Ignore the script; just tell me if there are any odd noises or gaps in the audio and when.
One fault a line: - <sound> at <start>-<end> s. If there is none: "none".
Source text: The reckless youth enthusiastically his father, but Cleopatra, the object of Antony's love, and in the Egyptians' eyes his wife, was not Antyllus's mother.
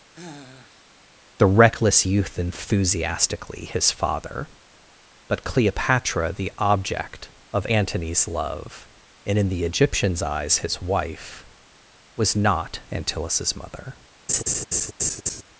- sigh at 0.1-0.9 s
- laugh at 14.3-15.4 s